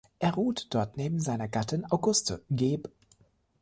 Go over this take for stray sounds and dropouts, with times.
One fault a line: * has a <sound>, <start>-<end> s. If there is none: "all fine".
all fine